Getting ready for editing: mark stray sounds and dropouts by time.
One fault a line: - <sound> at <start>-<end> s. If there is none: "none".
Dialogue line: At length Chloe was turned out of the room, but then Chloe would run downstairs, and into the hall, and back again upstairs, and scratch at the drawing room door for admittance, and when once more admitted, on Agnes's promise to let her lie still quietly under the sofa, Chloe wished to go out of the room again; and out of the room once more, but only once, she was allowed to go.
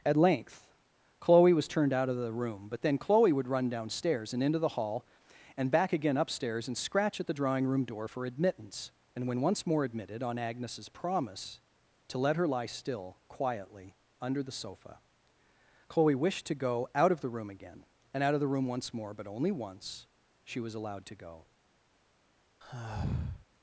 - sigh at 22.6-23.5 s